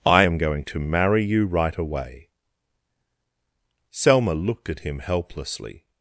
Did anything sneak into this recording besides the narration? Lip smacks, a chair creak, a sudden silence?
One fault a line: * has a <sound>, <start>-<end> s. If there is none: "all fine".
all fine